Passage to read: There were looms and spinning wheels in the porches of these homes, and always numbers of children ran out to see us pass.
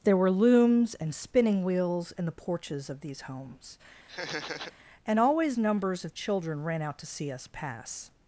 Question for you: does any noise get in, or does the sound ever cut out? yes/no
yes